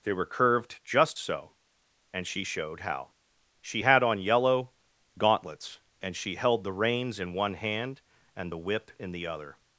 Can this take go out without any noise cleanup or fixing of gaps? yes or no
yes